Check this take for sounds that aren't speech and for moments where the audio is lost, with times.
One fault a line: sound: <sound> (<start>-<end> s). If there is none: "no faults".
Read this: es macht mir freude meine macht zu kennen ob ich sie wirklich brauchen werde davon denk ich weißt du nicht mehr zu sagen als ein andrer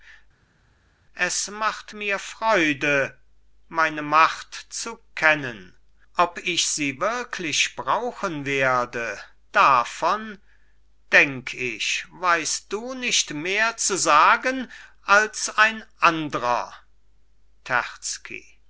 no faults